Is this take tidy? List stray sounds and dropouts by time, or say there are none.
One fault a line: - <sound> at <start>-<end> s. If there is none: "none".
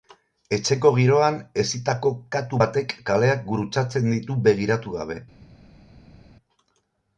none